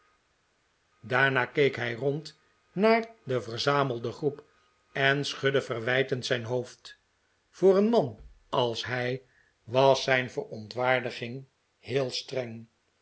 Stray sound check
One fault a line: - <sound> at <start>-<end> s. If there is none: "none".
none